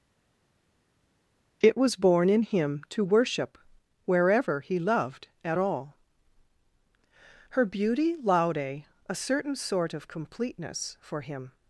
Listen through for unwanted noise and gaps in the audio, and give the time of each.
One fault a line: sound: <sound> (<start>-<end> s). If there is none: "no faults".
no faults